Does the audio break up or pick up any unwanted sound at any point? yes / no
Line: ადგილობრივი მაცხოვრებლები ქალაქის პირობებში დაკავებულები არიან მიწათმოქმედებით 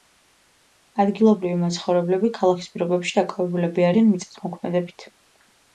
no